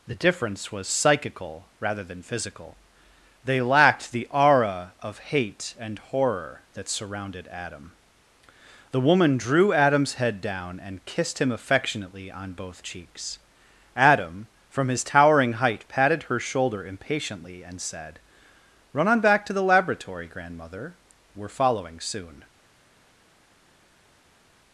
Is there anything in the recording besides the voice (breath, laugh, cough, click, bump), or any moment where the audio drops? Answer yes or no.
no